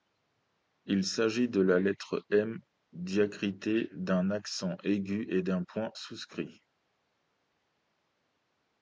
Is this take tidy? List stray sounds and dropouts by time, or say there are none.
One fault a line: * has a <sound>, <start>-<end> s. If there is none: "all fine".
all fine